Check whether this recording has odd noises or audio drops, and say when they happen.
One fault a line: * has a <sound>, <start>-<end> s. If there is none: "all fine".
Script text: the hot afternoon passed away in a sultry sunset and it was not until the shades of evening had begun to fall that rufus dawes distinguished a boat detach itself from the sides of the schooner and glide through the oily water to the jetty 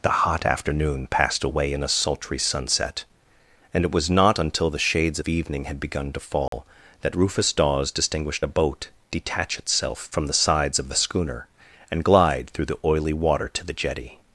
* has a dropout, 6.5-6.5 s